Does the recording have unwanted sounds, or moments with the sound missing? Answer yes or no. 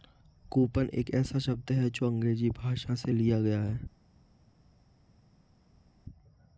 no